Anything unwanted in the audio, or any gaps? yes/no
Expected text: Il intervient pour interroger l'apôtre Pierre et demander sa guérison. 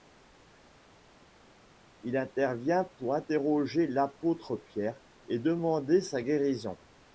no